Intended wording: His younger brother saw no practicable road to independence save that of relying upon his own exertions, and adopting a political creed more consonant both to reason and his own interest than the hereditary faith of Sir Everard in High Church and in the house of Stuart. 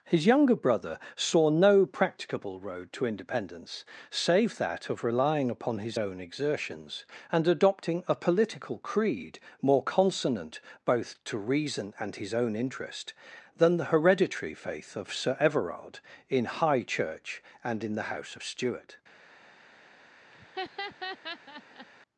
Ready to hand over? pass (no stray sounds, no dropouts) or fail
fail